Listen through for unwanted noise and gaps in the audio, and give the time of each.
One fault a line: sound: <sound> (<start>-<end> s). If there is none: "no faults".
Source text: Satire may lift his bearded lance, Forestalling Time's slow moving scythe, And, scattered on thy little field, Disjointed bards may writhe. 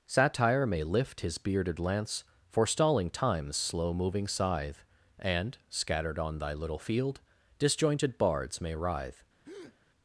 sound: breath (9.4-9.8 s)